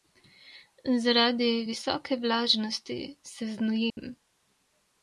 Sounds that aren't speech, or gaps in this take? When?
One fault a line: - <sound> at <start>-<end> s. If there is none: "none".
- dropout at 3.9-4.0 s